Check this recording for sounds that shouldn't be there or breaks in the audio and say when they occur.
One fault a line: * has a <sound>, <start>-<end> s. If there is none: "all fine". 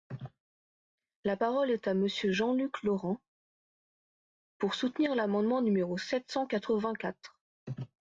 all fine